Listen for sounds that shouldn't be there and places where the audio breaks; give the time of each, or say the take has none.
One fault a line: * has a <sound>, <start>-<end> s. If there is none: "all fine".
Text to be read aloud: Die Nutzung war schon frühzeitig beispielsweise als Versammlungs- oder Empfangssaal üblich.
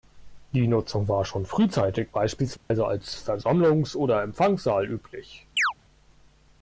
* has a dropout, 2.6-2.7 s
* has a chirp, 5.6-5.7 s